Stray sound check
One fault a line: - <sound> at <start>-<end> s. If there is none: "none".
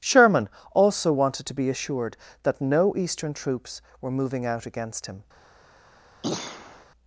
- throat clearing at 6.2-6.9 s